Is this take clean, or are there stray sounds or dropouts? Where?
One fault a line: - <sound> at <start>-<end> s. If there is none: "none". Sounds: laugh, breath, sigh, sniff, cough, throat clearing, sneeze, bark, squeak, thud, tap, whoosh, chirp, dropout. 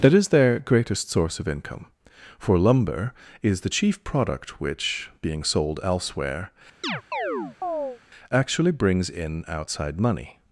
- chirp at 6.8-8.0 s